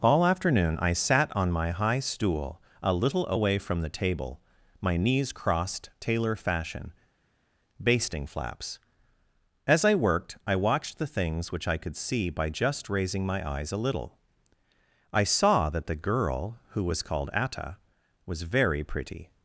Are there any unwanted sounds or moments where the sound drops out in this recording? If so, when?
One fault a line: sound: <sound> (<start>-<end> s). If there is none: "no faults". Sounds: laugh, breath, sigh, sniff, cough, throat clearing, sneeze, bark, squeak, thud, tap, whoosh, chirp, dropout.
no faults